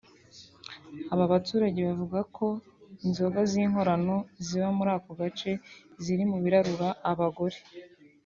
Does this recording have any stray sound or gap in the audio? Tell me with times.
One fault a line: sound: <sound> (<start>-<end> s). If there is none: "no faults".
no faults